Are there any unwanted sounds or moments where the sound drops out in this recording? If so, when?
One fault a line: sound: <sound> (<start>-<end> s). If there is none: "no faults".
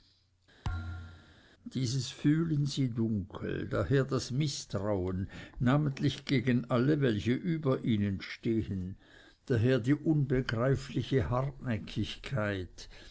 sound: thud (0.6-1.4 s)